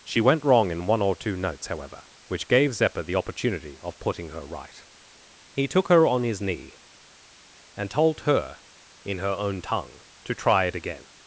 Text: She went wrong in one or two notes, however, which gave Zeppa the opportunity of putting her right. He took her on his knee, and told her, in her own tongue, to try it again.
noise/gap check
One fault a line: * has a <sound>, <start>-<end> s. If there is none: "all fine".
all fine